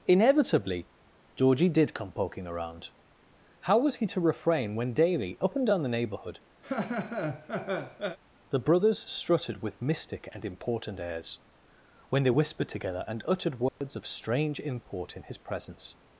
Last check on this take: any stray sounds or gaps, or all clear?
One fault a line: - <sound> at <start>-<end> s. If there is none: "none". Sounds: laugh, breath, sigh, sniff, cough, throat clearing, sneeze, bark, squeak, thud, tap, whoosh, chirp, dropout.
- laugh at 6.6-8.2 s
- dropout at 13.7-13.8 s